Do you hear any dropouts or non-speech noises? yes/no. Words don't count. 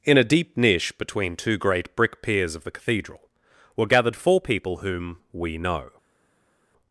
no